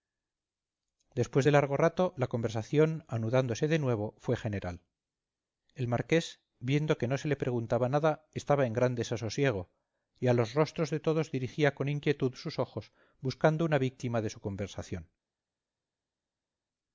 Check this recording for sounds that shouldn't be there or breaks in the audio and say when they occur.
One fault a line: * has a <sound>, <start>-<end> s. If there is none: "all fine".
all fine